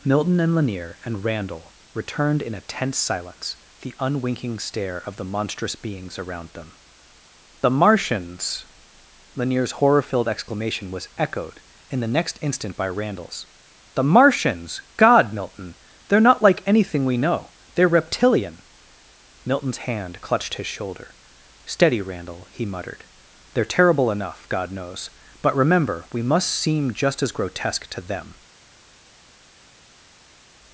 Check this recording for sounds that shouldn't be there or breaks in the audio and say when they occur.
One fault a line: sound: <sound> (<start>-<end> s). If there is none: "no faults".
no faults